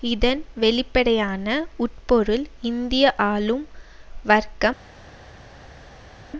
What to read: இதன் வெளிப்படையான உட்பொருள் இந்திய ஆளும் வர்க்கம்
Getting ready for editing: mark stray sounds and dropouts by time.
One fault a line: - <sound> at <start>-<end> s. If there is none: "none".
none